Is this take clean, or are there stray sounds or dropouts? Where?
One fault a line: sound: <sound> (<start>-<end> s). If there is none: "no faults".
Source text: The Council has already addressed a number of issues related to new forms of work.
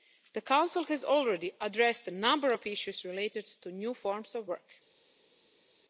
no faults